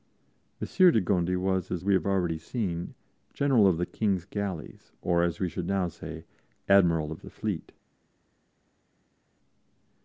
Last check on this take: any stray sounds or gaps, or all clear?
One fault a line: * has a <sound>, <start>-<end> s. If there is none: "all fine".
all fine